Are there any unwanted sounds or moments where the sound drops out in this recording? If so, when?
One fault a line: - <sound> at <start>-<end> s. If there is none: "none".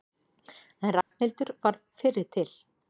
- dropout at 1.0-1.1 s